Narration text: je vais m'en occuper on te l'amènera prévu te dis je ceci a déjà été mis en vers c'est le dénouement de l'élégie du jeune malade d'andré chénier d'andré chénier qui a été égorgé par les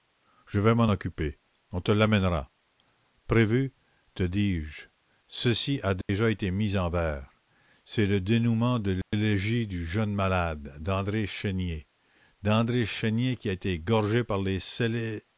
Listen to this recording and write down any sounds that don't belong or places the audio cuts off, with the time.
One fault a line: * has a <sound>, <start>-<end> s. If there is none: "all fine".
* has a dropout, 6.0-6.1 s
* has a dropout, 9.0-9.1 s